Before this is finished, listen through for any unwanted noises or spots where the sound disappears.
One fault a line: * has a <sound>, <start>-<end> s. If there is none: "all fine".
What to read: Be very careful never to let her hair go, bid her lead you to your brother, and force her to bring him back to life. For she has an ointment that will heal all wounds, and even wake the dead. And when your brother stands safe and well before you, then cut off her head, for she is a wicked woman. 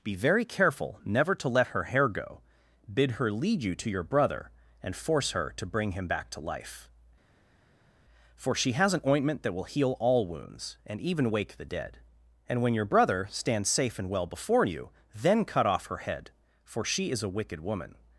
all fine